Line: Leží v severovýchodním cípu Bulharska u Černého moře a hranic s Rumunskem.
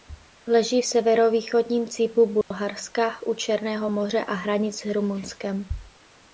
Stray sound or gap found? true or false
true